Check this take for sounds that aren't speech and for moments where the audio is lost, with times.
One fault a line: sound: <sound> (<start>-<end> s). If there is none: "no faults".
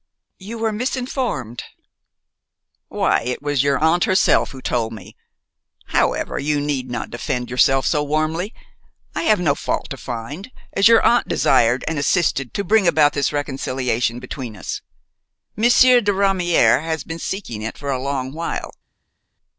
no faults